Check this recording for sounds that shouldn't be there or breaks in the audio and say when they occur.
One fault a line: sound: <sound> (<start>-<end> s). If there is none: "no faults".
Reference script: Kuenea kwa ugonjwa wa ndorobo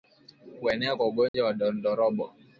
sound: dropout (1.3-1.3 s)